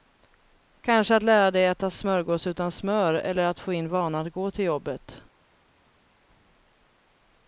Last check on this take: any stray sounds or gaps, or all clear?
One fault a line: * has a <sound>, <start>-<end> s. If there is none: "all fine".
all fine